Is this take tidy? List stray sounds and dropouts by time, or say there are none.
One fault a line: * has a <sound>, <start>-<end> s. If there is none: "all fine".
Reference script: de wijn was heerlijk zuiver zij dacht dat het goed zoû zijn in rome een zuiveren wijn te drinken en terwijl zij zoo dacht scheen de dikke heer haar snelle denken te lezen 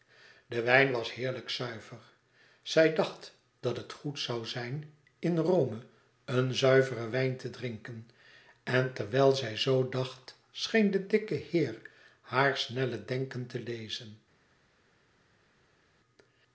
all fine